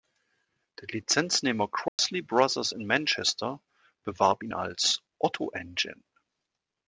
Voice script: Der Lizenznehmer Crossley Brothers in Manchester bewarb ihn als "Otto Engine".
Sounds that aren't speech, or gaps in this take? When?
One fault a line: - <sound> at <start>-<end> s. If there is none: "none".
- dropout at 1.9-2.0 s